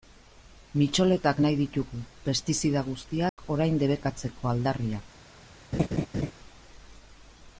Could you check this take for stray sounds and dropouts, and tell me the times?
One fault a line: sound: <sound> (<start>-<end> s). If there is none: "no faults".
sound: dropout (3.3-3.4 s)
sound: laugh (5.7-6.3 s)